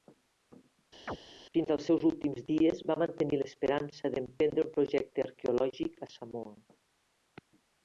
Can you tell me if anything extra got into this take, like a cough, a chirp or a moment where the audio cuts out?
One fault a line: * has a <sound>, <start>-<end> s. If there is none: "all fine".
* has a chirp, 1.1-1.2 s